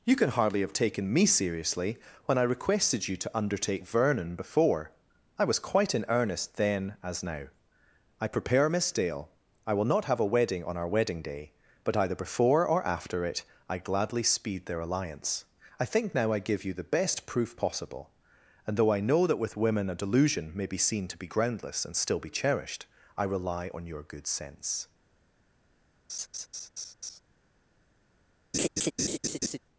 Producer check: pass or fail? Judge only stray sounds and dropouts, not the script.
fail